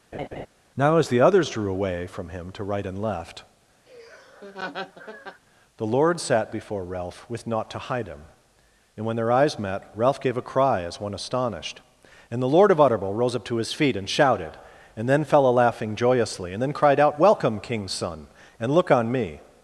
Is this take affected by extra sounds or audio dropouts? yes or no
yes